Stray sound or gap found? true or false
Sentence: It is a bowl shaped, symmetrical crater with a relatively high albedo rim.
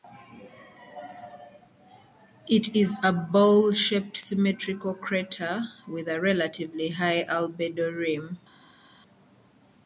false